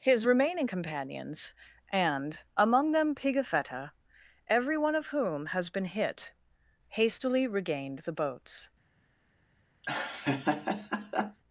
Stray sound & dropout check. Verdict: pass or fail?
fail